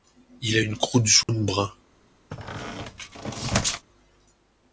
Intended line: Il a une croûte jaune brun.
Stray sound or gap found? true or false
true